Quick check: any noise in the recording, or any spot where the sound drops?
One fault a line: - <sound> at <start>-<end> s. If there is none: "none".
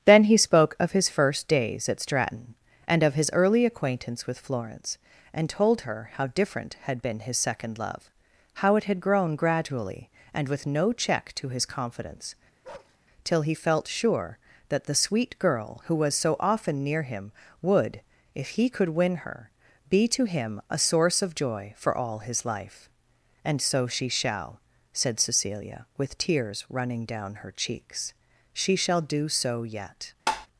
- bark at 12.6-13.0 s
- tap at 30.3-30.5 s